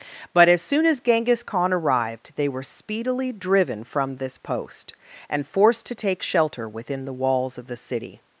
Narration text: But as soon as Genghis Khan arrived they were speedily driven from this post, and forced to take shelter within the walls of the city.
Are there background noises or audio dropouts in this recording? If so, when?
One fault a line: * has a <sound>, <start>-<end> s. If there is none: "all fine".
all fine